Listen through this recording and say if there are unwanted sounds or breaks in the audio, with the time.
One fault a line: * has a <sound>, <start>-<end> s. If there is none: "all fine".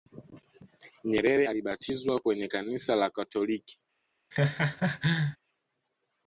* has a laugh, 4.3-5.4 s